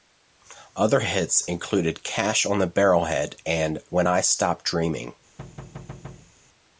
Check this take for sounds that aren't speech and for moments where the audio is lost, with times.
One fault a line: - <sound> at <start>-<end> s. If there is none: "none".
- thud at 5.4-6.3 s